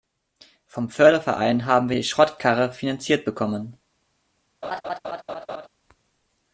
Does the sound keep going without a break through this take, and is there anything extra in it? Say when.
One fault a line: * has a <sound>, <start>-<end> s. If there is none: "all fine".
* has a laugh, 4.6-5.7 s